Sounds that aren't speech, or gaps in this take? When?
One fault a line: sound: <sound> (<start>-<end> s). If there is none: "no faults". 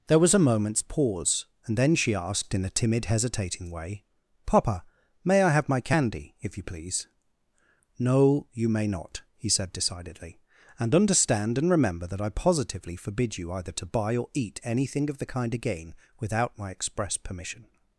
no faults